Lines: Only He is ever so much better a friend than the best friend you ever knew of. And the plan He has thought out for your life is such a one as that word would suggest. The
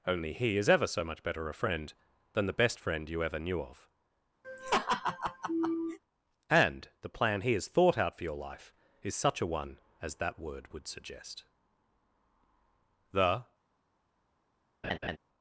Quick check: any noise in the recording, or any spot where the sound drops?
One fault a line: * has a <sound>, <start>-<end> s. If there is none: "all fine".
* has a laugh, 4.4-6.0 s
* has a laugh, 14.8-15.2 s